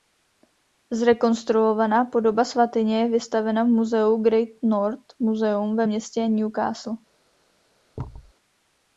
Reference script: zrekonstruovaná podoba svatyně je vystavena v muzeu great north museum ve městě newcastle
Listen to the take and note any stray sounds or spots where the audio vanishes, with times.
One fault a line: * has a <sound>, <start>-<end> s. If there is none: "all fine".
* has a thud, 8.0-8.3 s